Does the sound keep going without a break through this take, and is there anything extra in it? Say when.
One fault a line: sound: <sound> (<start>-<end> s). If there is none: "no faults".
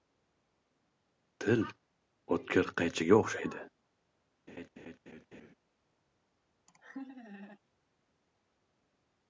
sound: laugh (4.5-5.5 s)
sound: laugh (6.7-7.6 s)